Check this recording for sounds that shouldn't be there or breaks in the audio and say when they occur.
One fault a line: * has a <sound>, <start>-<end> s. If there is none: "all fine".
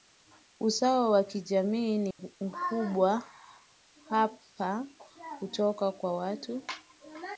* has a dropout, 2.1-2.2 s